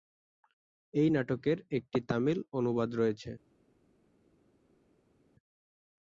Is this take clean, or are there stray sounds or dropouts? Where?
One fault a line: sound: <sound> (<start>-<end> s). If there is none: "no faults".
no faults